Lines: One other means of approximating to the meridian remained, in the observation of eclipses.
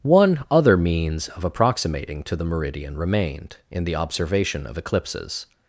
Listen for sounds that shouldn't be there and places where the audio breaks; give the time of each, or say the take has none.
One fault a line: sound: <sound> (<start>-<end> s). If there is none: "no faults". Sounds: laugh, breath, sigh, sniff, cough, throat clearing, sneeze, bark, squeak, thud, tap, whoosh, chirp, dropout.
no faults